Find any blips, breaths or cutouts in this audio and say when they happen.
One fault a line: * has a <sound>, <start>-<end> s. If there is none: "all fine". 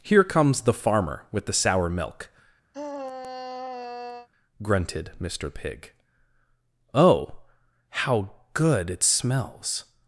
* has a sigh, 2.7-4.3 s